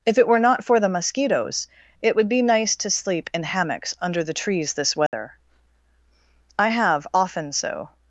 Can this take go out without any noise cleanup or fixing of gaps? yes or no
no